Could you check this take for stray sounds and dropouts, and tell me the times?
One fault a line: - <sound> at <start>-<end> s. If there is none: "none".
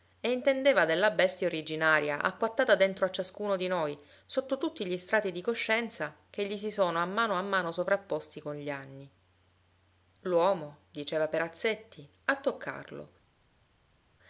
none